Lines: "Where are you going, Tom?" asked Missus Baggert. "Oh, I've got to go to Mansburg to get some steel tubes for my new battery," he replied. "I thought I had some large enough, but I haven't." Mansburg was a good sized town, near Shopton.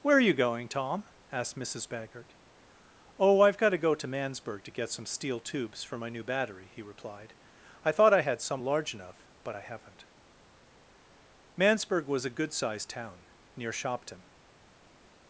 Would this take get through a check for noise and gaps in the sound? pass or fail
pass